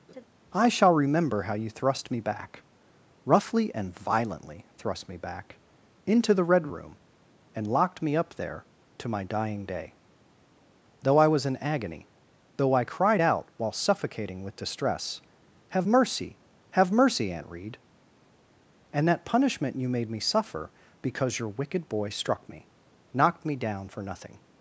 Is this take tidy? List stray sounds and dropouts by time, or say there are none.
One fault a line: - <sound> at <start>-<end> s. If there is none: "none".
- laugh at 0.1-0.2 s